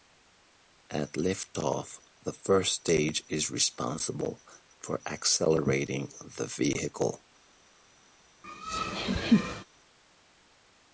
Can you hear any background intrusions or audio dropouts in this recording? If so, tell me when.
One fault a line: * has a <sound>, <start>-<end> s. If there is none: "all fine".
* has a laugh, 8.4-9.6 s